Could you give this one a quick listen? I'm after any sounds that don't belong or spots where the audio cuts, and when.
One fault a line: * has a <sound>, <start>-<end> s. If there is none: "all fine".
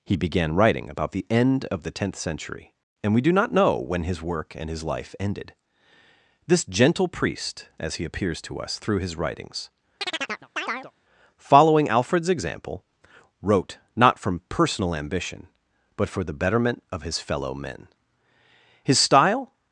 * has a chirp, 10.0-10.9 s